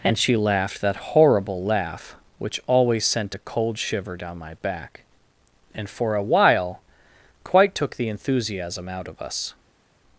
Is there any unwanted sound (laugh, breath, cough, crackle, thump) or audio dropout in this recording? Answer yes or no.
no